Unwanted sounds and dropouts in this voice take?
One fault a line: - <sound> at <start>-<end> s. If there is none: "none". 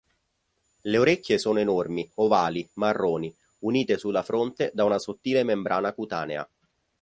none